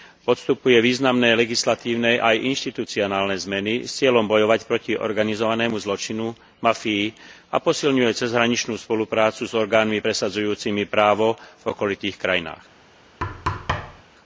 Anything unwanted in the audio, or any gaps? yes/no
yes